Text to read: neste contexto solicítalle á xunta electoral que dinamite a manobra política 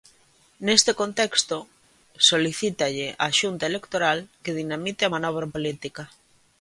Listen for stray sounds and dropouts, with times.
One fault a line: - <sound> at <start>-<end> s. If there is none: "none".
none